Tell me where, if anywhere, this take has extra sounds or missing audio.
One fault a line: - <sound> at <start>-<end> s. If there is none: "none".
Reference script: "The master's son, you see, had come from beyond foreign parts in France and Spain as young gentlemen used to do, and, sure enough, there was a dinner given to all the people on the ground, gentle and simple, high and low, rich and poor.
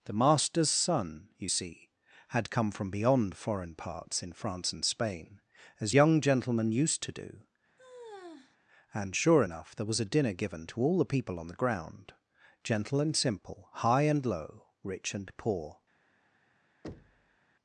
- sigh at 7.8-8.6 s
- thud at 16.8-17.4 s